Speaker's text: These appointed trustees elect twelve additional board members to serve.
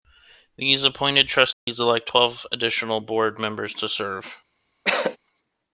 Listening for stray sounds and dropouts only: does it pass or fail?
fail